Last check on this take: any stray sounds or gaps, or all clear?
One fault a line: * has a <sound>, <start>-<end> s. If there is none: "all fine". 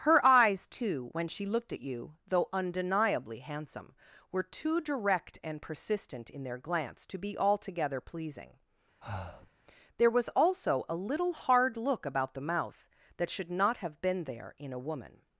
* has a breath, 9.0-9.5 s